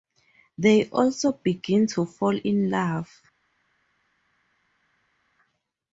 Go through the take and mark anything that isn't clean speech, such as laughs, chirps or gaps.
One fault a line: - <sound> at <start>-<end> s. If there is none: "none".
none